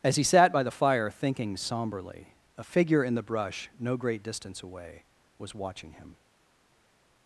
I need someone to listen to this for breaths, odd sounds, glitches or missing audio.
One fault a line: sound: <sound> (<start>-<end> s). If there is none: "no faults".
no faults